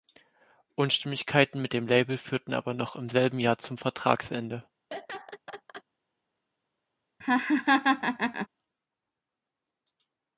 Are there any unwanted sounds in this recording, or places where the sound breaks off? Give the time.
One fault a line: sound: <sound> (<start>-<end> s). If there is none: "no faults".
sound: laugh (4.9-5.8 s)
sound: laugh (7.2-8.5 s)